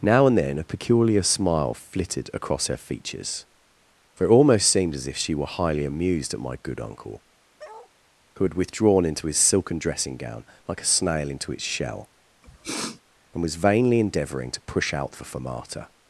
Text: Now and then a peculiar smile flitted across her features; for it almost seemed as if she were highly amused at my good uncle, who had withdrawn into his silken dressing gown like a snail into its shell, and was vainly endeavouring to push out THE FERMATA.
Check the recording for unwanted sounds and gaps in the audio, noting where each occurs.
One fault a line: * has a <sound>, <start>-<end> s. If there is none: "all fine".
* has a bark, 7.6-7.9 s
* has a sniff, 12.4-13.0 s